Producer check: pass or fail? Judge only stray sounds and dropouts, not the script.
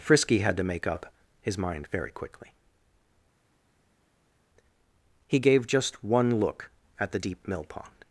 pass